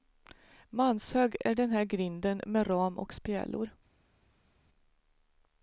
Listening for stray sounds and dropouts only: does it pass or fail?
pass